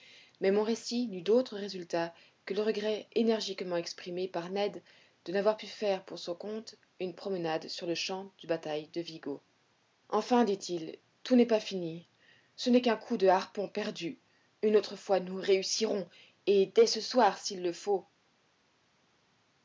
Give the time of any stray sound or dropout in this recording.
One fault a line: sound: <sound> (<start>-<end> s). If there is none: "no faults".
no faults